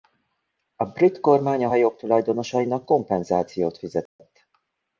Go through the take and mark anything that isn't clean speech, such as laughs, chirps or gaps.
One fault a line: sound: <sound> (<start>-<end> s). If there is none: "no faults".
sound: dropout (4.1-4.2 s)